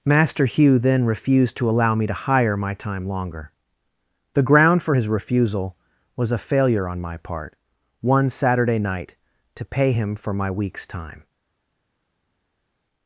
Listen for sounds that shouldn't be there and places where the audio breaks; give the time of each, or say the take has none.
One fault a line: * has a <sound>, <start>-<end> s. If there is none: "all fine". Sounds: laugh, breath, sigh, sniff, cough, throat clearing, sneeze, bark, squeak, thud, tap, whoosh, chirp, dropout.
all fine